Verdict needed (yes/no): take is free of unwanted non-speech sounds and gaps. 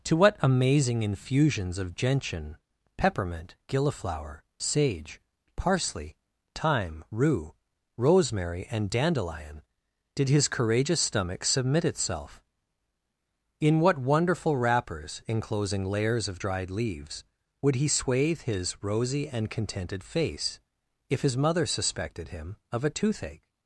yes